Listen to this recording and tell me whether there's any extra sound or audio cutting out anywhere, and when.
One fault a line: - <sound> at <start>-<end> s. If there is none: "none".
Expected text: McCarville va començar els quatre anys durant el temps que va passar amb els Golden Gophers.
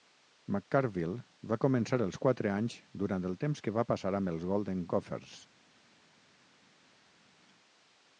none